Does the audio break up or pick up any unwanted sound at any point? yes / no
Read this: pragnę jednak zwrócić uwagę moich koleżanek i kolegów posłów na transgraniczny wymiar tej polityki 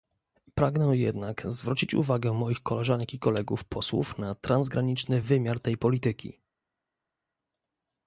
no